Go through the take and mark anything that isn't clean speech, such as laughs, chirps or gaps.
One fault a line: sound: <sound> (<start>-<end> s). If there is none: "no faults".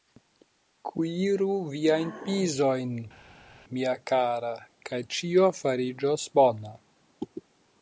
no faults